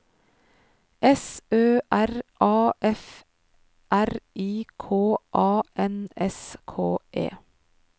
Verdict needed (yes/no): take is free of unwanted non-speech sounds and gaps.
yes